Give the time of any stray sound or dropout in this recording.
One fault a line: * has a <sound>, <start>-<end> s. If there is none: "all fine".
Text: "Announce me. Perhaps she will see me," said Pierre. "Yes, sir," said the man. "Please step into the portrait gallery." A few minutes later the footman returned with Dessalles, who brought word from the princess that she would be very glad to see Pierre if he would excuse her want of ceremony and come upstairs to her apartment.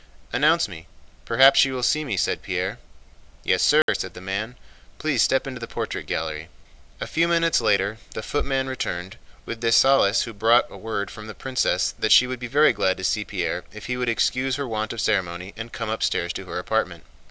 * has a dropout, 3.8-3.9 s